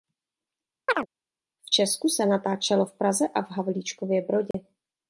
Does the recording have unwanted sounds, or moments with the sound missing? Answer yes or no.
yes